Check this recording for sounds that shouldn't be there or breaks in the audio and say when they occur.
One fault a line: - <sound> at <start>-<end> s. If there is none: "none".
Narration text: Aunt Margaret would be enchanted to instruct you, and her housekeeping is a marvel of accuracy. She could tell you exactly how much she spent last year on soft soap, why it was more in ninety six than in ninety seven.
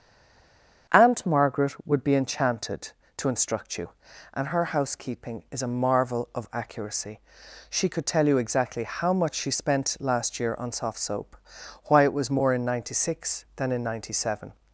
none